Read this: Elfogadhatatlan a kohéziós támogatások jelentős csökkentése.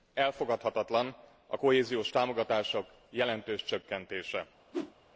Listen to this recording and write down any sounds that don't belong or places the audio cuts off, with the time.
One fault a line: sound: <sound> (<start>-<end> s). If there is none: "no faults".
sound: whoosh (4.7-4.9 s)